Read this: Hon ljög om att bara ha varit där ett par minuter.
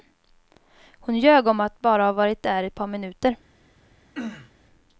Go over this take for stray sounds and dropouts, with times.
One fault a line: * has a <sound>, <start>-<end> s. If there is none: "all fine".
* has a throat clearing, 4.1-4.5 s